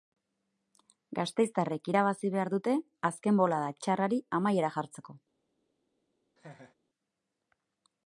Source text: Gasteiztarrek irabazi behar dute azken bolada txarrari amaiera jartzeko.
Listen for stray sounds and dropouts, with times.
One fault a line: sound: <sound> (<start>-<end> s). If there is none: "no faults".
sound: laugh (6.4-6.7 s)